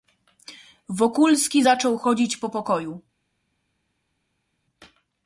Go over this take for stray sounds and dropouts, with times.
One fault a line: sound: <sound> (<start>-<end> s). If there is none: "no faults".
no faults